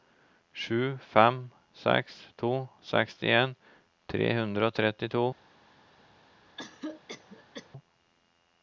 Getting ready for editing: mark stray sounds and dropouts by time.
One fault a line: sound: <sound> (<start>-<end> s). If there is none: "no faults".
sound: cough (6.6-7.7 s)